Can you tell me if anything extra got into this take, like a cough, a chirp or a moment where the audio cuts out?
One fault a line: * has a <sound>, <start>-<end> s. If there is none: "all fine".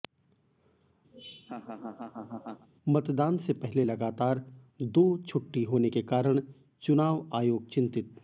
* has a laugh, 1.1-2.7 s